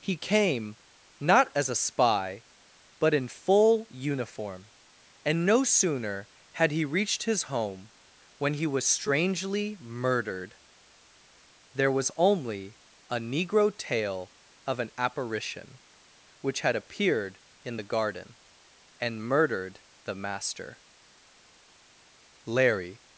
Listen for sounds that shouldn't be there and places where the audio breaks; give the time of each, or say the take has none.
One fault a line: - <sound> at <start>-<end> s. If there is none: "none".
none